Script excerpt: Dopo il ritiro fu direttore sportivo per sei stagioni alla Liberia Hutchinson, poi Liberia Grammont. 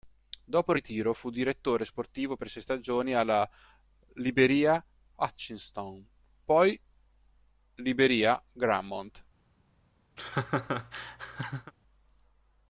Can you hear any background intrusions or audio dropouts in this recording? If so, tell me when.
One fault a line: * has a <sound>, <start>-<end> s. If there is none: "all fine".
* has a laugh, 10.2-11.7 s